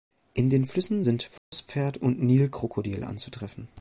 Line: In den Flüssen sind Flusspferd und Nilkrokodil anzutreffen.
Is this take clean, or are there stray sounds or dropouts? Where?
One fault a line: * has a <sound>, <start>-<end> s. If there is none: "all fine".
* has a dropout, 1.4-1.5 s